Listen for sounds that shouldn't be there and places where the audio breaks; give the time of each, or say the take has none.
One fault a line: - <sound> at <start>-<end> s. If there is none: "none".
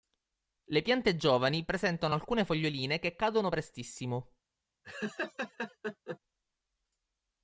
- laugh at 4.8-6.2 s